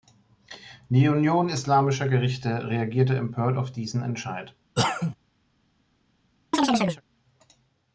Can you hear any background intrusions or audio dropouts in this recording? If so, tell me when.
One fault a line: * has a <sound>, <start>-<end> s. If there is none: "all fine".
* has a cough, 4.8-5.2 s
* has a chirp, 6.5-7.0 s